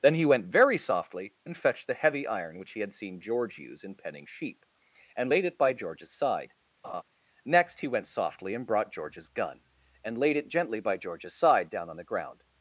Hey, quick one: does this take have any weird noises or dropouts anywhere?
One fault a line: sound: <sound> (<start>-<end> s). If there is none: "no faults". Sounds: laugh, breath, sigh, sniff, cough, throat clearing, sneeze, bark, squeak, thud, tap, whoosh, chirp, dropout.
sound: laugh (6.8-7.0 s)